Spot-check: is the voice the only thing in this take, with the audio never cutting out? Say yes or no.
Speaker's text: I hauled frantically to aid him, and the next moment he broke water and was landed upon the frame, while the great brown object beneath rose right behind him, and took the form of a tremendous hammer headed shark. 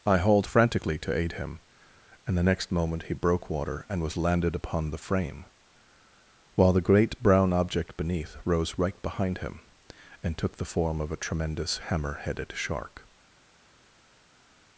yes